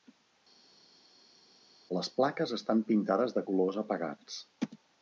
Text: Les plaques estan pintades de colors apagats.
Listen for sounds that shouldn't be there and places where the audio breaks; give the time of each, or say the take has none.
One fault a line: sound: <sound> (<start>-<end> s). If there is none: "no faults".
no faults